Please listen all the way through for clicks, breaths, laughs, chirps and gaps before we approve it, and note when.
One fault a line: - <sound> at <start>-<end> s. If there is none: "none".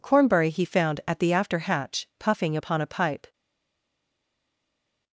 none